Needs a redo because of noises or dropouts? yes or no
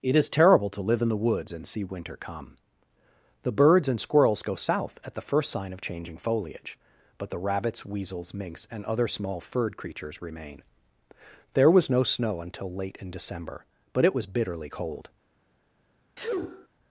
yes